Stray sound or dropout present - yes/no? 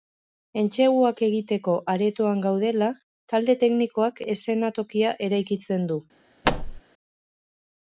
yes